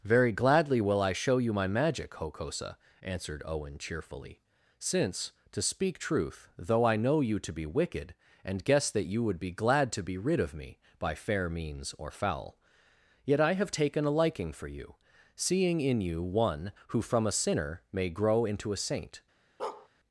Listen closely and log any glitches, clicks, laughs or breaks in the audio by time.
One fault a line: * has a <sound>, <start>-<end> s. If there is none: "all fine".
* has a bark, 19.6-19.9 s